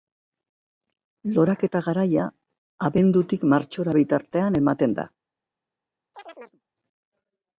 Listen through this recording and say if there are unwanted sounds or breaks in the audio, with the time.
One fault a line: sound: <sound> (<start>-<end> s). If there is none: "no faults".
sound: chirp (6.1-6.6 s)